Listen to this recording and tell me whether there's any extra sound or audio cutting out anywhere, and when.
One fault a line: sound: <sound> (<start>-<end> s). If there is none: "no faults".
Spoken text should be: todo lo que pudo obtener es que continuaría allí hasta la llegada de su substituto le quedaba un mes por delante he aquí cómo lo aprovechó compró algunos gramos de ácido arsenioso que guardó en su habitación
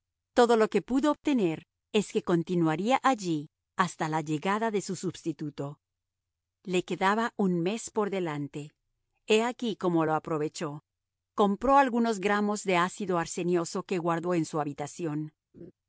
sound: laugh (15.5-15.7 s)